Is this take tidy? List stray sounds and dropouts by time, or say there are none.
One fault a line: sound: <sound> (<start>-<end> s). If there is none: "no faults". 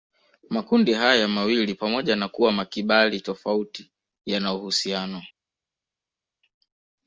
no faults